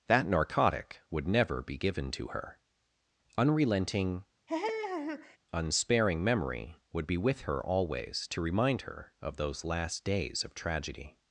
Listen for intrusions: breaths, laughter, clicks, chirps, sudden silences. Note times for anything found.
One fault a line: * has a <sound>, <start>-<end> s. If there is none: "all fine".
* has a laugh, 4.5-5.4 s